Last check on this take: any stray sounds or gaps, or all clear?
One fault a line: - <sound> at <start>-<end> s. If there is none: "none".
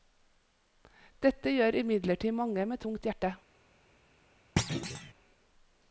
- thud at 4.6-5.1 s